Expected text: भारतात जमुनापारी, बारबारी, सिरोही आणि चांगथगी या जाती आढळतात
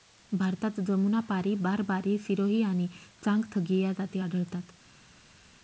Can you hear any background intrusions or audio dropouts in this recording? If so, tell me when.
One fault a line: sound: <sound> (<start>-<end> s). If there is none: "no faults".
no faults